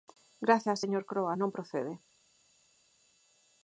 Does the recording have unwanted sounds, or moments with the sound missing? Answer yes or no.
no